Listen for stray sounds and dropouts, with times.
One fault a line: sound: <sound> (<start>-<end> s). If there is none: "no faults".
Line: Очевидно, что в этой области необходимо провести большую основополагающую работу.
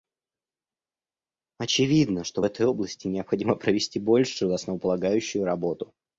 no faults